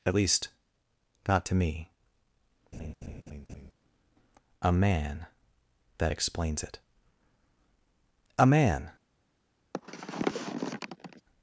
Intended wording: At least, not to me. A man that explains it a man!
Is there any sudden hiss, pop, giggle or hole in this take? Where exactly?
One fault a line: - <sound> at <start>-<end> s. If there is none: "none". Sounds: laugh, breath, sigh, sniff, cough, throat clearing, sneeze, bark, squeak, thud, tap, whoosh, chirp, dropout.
- laugh at 2.7-3.7 s
- sniff at 9.7-11.2 s